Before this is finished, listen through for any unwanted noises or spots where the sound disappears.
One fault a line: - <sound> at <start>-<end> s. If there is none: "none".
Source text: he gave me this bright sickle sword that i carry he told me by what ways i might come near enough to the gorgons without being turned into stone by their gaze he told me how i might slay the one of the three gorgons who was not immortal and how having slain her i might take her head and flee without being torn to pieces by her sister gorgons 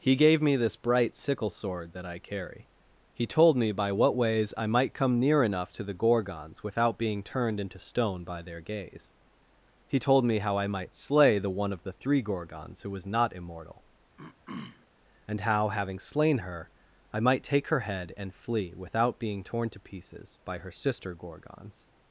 - throat clearing at 14.2-14.9 s